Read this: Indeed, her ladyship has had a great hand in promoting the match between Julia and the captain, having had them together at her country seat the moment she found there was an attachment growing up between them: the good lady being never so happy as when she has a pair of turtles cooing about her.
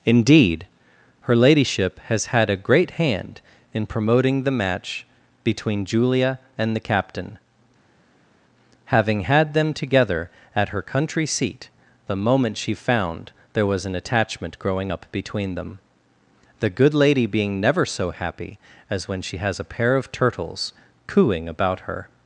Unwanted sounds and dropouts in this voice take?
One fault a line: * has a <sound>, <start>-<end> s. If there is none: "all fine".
all fine